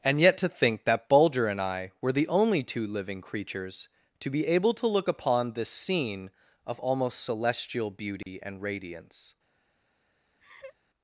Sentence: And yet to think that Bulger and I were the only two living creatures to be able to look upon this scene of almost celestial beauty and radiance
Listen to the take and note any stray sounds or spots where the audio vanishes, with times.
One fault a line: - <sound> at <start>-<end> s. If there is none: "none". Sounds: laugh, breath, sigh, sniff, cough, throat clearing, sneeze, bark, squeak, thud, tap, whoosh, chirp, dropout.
- dropout at 8.2-8.3 s
- laugh at 10.4-10.8 s